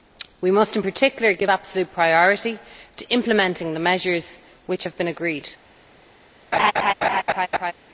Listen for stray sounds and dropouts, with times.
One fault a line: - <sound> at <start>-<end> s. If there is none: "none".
- laugh at 6.5-7.7 s